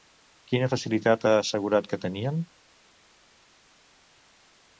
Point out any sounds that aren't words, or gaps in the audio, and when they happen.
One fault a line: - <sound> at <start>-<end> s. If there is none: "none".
none